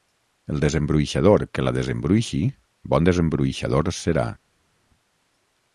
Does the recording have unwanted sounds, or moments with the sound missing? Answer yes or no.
no